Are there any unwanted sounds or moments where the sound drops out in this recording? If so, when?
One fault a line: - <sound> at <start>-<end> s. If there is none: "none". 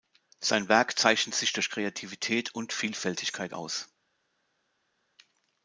none